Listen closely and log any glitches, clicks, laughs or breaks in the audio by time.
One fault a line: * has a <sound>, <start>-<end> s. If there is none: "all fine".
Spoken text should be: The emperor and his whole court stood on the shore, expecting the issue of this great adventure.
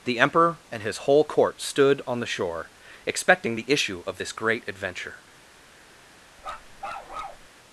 * has a bark, 6.4-7.5 s